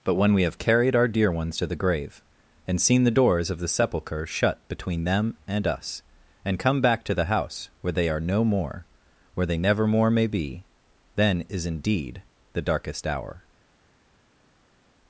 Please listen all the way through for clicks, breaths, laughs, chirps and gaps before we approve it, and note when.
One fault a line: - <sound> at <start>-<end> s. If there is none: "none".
none